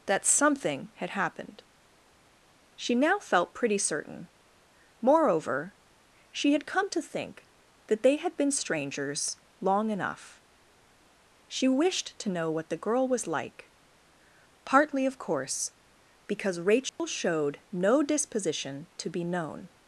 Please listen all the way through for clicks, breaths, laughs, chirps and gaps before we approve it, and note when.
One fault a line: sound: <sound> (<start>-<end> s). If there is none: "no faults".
sound: dropout (16.9-17.0 s)